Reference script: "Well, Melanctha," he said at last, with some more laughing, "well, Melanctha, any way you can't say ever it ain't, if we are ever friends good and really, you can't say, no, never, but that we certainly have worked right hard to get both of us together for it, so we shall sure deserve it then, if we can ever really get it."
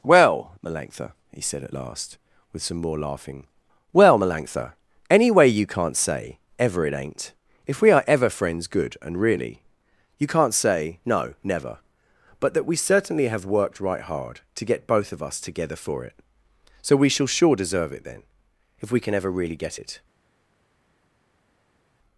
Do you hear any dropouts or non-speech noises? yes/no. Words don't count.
no